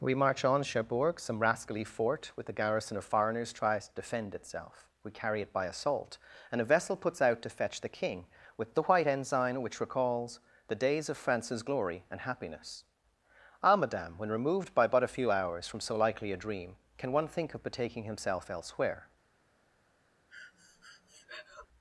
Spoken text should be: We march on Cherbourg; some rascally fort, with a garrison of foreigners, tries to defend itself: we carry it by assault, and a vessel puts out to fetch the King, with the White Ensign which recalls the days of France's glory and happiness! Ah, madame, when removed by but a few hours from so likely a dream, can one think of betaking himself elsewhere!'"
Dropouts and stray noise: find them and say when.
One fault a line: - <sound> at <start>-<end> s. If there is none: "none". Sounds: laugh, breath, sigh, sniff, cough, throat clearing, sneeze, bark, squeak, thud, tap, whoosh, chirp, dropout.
- breath at 20.3-21.7 s